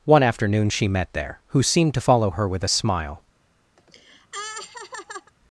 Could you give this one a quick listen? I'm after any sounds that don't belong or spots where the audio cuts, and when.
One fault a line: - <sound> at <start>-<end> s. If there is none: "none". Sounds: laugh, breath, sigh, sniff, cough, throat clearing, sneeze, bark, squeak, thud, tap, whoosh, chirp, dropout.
- laugh at 3.8-5.3 s